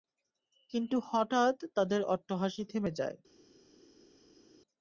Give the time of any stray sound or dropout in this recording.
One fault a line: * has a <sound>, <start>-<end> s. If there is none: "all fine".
all fine